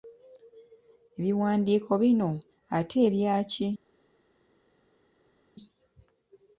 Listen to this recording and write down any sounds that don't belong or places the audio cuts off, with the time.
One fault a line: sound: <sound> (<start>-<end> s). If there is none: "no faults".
no faults